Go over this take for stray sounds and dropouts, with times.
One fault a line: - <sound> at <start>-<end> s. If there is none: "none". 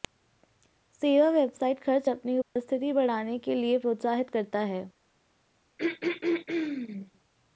- dropout at 2.4-2.6 s
- throat clearing at 5.8-7.1 s